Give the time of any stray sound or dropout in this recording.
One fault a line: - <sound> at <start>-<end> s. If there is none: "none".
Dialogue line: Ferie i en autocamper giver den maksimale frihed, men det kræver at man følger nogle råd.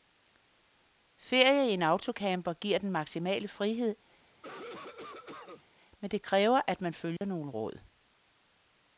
- cough at 4.3-5.6 s
- dropout at 7.2-7.2 s